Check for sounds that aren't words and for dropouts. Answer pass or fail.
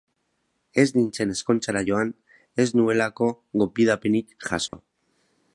fail